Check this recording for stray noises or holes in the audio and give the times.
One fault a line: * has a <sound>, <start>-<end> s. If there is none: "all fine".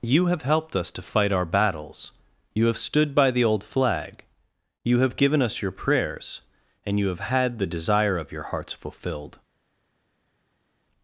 all fine